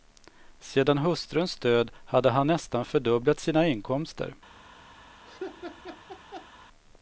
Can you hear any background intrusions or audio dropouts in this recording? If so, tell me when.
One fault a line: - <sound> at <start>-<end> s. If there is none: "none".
- laugh at 5.2-6.5 s